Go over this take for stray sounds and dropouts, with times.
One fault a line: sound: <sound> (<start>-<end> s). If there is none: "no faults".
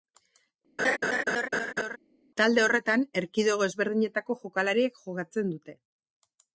sound: laugh (0.8-2.0 s)